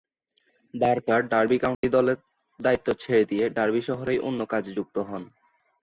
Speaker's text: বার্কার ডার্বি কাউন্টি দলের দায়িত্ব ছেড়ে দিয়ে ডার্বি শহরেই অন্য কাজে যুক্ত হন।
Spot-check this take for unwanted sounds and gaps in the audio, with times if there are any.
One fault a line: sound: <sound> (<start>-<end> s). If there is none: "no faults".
sound: dropout (1.7-1.8 s)